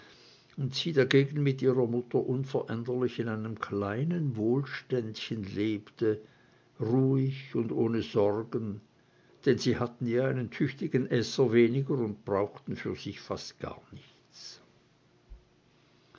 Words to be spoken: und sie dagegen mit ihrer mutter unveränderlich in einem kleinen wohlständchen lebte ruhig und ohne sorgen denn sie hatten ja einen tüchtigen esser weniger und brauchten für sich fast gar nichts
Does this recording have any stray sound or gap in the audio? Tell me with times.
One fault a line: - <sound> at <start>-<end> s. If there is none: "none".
none